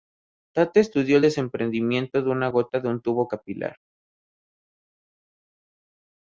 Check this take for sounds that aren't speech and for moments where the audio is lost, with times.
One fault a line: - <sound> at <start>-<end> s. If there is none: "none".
none